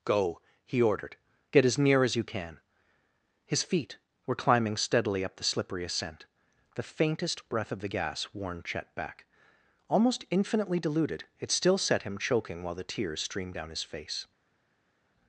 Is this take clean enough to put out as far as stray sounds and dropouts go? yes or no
yes